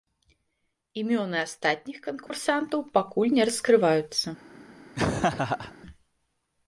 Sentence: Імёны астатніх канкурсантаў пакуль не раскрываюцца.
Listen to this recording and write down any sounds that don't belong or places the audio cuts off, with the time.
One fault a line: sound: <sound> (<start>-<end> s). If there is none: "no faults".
sound: dropout (2.3-2.3 s)
sound: laugh (4.9-5.7 s)